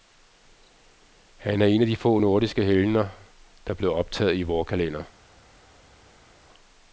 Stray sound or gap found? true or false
false